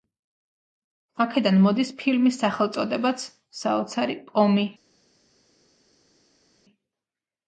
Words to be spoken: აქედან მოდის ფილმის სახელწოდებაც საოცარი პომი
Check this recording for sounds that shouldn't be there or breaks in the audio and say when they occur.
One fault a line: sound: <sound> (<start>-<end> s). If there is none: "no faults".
no faults